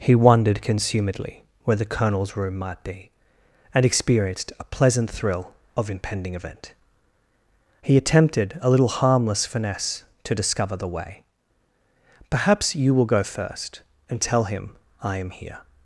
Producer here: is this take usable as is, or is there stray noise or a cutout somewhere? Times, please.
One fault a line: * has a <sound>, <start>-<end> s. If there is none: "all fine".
all fine